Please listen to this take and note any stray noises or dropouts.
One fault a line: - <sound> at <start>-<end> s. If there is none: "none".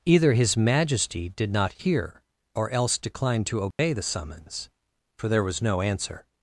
- dropout at 3.7-3.8 s